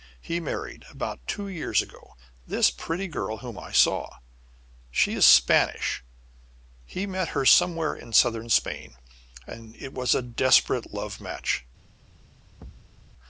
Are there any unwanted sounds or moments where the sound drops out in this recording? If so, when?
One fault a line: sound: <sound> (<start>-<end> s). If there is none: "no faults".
sound: thud (12.6-13.0 s)